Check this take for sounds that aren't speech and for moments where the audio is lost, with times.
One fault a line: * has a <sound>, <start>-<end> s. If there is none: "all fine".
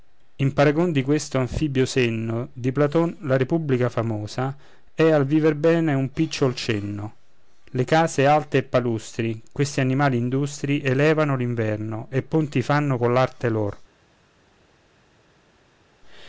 all fine